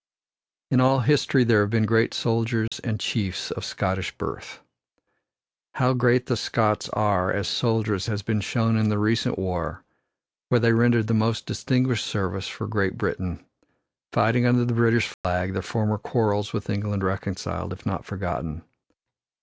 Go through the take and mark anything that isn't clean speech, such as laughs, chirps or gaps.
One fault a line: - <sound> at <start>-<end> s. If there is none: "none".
- dropout at 2.7-2.7 s
- dropout at 15.1-15.2 s